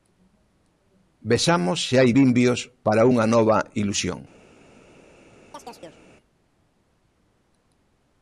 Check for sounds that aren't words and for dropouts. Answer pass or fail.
fail